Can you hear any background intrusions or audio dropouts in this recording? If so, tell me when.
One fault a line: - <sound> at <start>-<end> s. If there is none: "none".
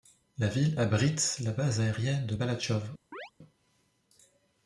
- chirp at 3.1-3.3 s